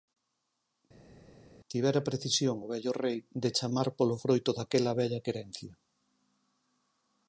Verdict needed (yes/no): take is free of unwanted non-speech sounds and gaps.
yes